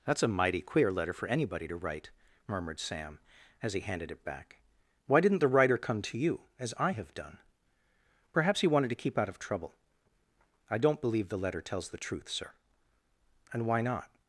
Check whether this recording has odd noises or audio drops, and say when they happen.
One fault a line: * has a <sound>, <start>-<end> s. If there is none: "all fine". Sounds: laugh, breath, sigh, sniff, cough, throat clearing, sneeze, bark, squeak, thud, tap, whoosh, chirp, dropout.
all fine